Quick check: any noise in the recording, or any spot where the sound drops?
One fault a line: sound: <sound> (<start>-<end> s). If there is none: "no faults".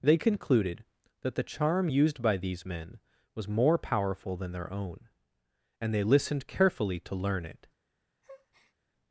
sound: breath (8.2-8.7 s)